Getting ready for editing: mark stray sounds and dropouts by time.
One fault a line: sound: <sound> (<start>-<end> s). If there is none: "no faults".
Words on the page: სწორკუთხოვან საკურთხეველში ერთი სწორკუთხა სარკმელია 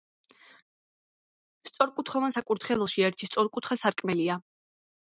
no faults